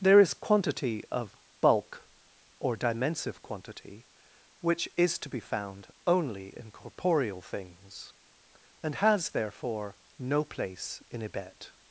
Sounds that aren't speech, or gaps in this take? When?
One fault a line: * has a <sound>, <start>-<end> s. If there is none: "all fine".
all fine